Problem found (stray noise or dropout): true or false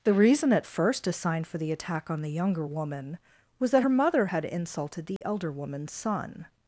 true